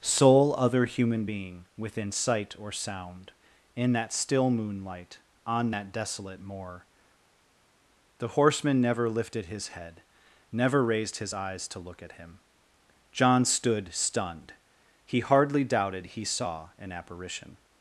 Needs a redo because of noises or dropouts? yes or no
no